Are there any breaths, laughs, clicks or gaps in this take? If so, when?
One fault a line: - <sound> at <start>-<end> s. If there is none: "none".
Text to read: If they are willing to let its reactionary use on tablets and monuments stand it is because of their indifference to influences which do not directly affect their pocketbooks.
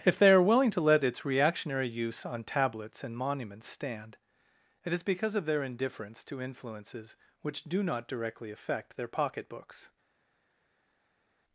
none